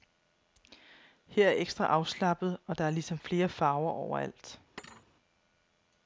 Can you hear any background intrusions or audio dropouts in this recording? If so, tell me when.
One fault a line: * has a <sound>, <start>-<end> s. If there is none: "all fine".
* has a thud, 4.8-5.1 s